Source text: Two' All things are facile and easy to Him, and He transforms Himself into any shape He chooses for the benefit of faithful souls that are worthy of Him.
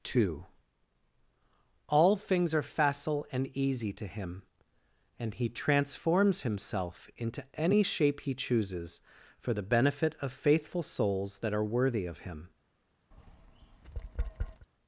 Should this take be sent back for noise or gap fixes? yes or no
yes